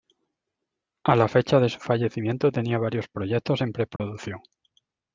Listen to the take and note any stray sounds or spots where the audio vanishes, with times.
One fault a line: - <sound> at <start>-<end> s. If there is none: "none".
- dropout at 4.0-4.0 s